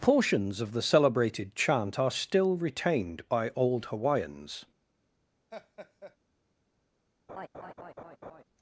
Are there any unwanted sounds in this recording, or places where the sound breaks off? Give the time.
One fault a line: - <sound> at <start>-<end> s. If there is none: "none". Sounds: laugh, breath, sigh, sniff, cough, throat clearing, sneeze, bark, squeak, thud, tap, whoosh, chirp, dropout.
- laugh at 5.5-6.2 s
- laugh at 7.3-8.4 s